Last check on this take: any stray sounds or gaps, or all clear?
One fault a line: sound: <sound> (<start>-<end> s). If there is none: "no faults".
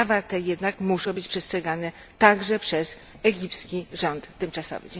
no faults